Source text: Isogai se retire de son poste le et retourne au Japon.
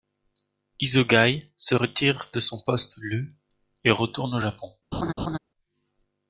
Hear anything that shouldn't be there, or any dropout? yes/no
yes